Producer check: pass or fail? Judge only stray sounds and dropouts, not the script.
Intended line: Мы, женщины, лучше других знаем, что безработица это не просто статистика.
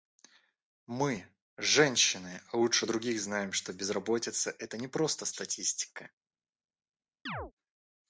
fail